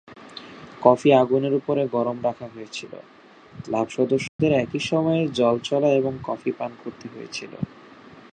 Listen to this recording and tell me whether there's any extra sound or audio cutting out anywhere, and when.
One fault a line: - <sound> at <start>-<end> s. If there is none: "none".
- dropout at 4.3-4.4 s